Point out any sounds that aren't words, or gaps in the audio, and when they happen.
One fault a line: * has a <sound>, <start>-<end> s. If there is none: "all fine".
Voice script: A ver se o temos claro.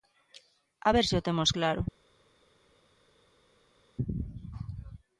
all fine